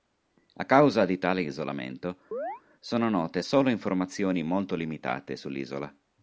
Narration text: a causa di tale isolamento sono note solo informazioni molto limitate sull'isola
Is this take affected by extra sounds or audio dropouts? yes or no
yes